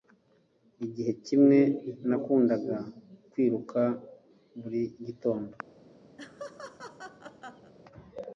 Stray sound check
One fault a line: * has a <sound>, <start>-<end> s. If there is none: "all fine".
* has a laugh, 6.2-7.7 s